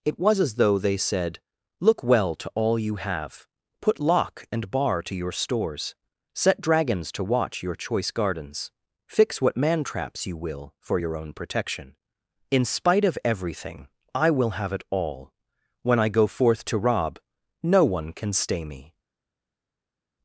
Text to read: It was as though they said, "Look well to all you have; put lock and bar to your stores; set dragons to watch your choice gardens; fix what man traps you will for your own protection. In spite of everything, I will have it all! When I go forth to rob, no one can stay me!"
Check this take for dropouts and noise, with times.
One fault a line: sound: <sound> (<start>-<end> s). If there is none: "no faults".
no faults